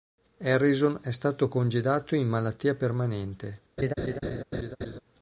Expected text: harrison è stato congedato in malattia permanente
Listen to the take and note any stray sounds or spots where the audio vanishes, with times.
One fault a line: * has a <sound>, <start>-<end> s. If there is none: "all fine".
* has a laugh, 3.8-5.0 s